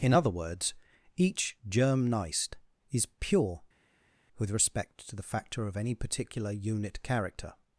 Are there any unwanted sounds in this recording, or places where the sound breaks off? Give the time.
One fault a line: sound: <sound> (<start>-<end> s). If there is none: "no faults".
no faults